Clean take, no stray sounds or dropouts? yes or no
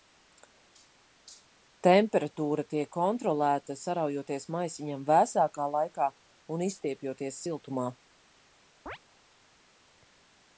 no